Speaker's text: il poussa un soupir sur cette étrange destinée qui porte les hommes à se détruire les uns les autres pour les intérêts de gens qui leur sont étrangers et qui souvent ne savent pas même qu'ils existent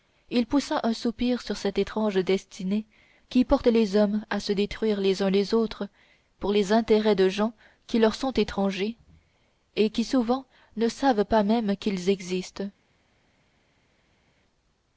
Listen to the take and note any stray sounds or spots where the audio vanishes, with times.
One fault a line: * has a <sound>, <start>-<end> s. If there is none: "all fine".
all fine